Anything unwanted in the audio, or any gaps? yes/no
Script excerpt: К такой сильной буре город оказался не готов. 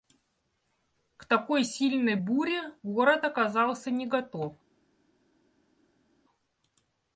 no